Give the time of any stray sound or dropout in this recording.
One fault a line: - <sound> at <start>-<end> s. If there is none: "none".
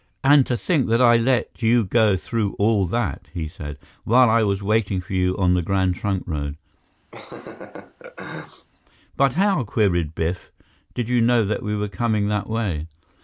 - laugh at 7.1-8.7 s